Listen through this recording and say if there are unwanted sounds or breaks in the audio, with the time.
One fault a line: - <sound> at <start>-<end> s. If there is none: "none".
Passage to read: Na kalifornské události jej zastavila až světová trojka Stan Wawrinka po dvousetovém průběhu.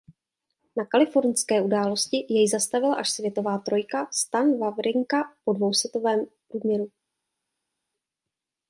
none